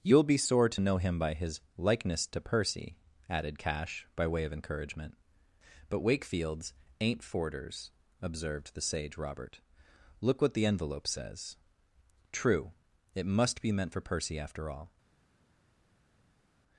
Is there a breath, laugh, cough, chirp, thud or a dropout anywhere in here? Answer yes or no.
no